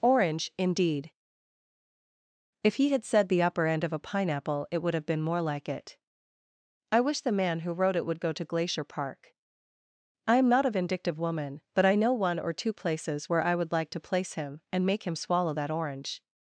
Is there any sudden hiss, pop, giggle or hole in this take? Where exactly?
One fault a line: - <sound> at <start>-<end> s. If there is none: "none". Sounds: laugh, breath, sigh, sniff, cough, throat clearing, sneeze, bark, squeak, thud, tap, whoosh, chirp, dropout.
none